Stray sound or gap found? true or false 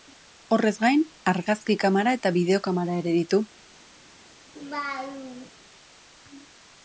true